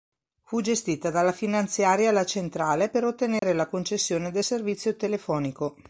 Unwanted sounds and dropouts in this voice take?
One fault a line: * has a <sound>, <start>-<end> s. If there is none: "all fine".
* has a dropout, 3.4-3.4 s